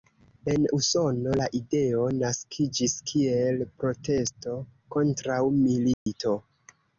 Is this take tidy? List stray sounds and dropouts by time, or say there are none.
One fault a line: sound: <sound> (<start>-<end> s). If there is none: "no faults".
sound: dropout (5.9-6.1 s)